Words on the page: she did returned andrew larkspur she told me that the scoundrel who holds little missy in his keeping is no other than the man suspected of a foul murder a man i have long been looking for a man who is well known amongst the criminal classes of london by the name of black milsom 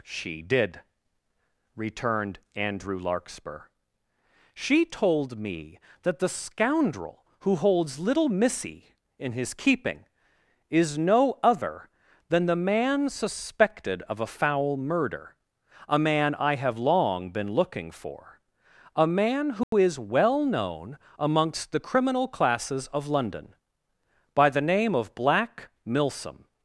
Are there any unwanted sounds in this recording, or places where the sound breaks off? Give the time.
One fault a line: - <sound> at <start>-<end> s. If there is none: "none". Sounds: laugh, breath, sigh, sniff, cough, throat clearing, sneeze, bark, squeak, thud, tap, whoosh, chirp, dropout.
- dropout at 19.6-19.7 s